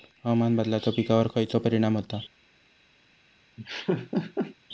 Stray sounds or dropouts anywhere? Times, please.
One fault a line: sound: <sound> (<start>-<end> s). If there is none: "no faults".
sound: laugh (3.6-4.6 s)